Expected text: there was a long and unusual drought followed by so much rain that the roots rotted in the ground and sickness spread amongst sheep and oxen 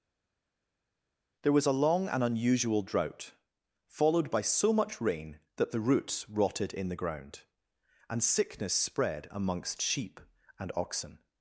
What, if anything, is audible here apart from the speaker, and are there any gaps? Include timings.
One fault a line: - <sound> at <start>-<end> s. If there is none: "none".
none